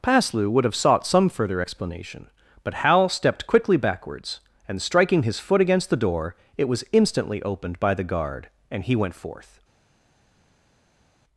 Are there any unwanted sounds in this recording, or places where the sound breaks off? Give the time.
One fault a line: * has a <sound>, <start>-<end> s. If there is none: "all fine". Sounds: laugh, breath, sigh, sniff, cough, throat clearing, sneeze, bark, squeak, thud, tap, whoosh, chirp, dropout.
all fine